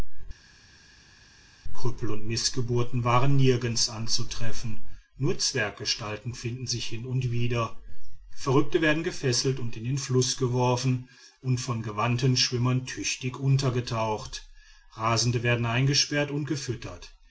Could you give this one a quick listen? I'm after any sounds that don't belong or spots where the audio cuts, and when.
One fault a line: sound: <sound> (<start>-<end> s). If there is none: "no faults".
no faults